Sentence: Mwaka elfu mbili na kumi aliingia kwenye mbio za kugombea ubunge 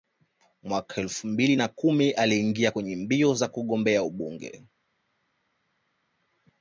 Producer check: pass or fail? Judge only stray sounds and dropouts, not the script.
pass